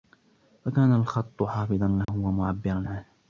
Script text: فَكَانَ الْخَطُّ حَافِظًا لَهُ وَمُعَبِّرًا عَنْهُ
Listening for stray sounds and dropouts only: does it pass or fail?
fail